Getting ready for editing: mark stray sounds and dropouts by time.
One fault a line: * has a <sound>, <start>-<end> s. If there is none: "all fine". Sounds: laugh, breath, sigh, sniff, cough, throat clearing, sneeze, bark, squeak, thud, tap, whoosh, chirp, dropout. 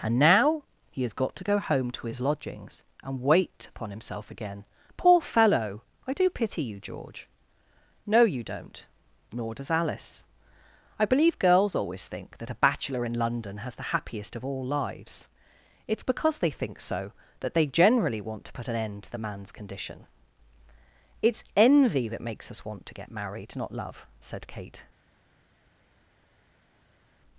all fine